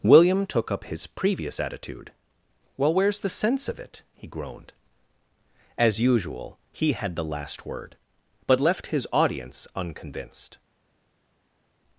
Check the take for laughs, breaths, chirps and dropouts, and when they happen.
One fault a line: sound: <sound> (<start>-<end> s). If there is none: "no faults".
no faults